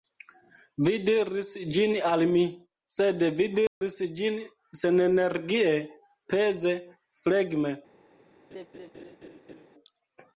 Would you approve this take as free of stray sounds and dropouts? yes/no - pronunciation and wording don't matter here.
no